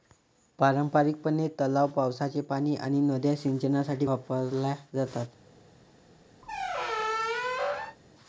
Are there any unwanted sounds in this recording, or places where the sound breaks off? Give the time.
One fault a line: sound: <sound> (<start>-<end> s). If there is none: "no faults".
sound: squeak (6.4-8.0 s)